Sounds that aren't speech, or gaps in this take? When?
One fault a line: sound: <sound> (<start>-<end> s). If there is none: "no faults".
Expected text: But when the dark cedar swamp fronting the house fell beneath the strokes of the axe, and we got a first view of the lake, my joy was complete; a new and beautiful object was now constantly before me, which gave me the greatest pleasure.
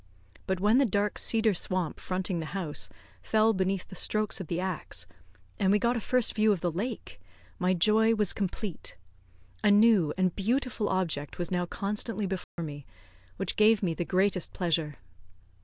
sound: dropout (12.4-12.6 s)